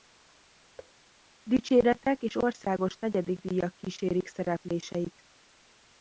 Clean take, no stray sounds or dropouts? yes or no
no